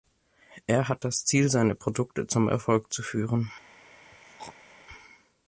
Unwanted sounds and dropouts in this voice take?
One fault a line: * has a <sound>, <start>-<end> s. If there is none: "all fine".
* has a throat clearing, 4.1-4.8 s